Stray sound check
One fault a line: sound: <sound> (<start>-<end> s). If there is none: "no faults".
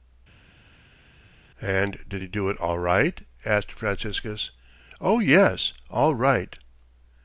no faults